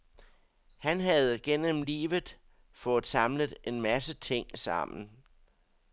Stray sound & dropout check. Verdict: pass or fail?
pass